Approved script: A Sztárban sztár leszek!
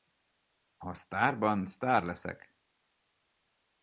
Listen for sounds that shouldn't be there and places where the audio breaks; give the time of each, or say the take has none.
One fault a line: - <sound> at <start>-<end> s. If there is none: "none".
none